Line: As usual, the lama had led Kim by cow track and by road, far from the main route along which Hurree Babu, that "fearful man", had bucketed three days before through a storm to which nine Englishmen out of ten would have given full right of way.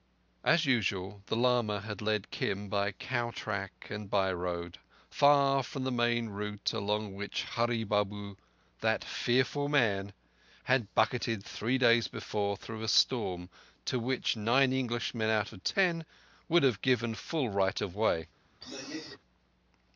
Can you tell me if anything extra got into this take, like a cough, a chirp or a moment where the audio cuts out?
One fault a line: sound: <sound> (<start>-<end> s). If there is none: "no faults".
sound: throat clearing (18.6-19.2 s)